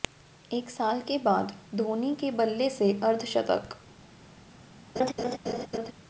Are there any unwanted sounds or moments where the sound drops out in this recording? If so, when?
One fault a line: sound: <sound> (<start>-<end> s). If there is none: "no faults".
sound: laugh (5.0-5.9 s)